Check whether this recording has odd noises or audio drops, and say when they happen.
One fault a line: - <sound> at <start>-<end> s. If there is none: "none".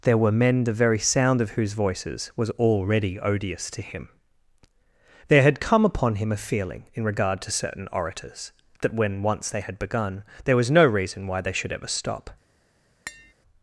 - tap at 13.1-13.3 s